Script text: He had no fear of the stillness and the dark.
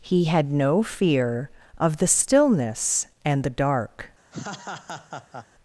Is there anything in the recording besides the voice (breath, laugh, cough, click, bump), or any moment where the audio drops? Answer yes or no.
yes